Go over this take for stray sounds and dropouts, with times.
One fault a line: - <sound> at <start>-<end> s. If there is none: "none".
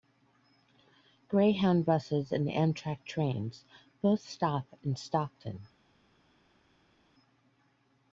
none